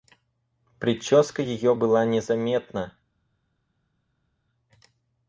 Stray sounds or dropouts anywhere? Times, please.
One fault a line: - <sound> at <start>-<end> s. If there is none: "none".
none